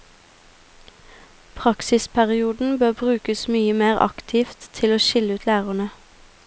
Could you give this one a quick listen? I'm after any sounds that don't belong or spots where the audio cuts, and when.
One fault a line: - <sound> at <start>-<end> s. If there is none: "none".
none